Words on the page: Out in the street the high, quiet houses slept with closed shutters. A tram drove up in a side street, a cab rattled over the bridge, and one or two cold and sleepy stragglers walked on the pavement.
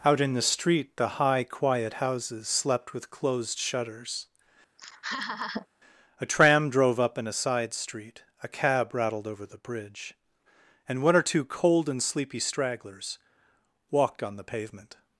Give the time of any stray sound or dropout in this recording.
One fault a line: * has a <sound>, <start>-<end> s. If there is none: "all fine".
* has a laugh, 4.8-5.7 s